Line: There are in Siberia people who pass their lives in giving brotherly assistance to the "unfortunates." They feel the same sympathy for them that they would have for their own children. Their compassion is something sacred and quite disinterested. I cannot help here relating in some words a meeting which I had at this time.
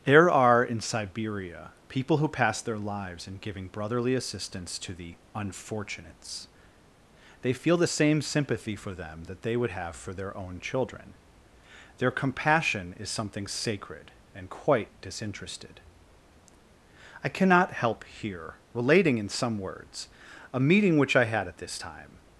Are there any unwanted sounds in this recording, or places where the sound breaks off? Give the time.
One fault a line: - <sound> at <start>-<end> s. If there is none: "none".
none